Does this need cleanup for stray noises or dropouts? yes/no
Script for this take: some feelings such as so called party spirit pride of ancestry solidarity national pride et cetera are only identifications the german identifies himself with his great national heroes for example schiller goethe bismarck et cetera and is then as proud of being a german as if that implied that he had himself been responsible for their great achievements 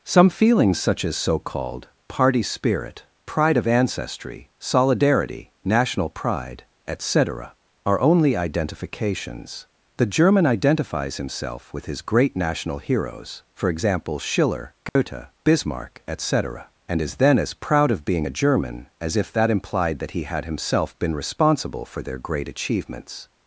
yes